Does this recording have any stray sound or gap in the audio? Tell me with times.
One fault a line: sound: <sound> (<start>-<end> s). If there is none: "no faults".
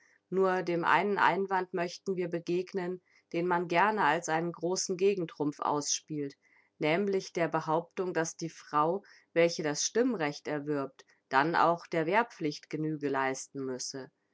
no faults